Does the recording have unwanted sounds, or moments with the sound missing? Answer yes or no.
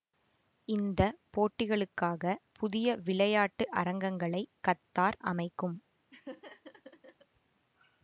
yes